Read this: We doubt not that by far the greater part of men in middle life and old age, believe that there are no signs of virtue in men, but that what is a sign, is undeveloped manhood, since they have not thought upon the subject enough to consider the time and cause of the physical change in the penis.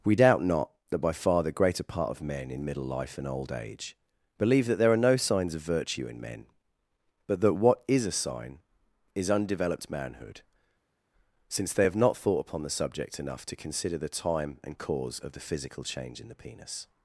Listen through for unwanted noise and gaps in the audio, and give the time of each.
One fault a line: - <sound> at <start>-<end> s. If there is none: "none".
none